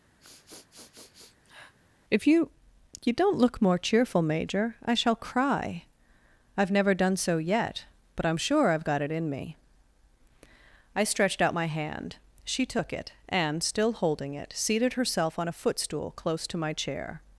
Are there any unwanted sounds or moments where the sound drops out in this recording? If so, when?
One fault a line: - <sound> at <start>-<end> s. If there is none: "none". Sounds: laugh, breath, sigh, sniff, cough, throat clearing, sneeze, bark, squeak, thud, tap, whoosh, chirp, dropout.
- sniff at 0.2-1.7 s